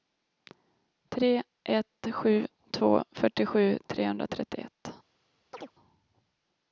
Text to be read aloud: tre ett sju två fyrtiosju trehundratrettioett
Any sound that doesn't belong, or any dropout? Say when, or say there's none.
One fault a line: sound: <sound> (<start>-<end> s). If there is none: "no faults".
sound: chirp (5.5-5.7 s)